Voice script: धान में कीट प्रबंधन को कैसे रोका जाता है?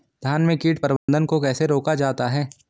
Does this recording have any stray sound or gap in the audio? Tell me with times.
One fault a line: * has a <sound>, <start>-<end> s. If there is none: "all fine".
* has a dropout, 1.0-1.1 s